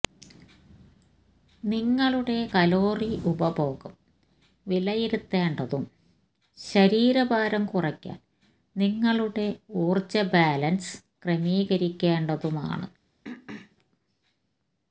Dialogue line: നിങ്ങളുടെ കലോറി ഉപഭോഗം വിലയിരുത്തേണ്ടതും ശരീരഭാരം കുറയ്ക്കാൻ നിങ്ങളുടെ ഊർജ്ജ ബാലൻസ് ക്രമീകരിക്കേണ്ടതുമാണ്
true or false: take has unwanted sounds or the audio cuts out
true